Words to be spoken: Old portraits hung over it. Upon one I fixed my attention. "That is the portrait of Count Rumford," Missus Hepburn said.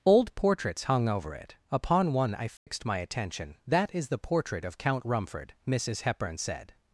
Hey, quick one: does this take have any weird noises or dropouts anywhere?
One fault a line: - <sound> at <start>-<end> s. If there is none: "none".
- dropout at 2.6-2.7 s